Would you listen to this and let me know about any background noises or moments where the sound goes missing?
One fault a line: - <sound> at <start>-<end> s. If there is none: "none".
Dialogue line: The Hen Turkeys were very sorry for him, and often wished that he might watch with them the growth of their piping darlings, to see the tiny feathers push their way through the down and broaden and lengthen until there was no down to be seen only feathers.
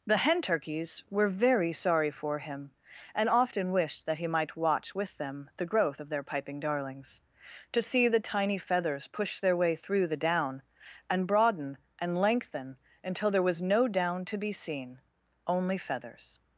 none